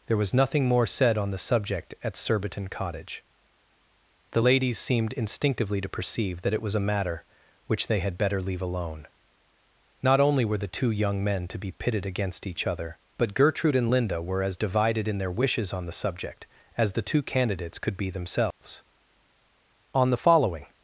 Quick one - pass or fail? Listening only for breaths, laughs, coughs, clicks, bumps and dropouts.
fail